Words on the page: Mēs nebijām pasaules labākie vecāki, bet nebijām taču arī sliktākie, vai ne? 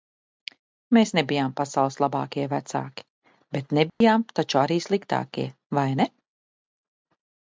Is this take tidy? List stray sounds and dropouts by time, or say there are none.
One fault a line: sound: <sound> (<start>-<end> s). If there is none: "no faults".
sound: dropout (3.9-4.0 s)